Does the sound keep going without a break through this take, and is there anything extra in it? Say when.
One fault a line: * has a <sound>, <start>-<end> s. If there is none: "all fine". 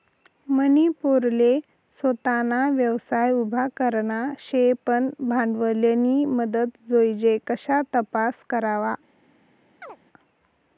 * has a chirp, 9.8-10.0 s